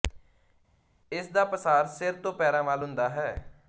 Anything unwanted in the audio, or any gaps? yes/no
no